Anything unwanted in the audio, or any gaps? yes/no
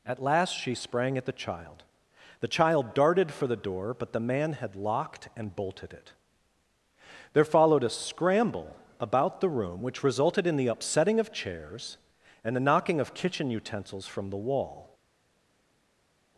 no